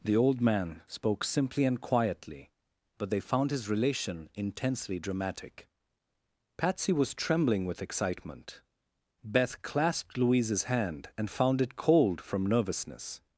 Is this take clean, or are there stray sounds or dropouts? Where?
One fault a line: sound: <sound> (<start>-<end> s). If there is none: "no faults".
no faults